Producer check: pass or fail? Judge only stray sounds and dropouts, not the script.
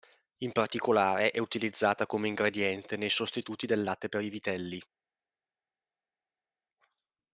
pass